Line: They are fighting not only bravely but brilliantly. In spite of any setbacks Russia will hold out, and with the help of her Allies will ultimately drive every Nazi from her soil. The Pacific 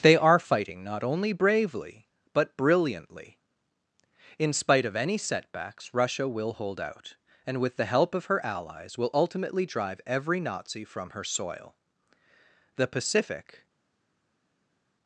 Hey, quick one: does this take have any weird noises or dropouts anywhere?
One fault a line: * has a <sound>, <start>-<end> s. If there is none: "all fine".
all fine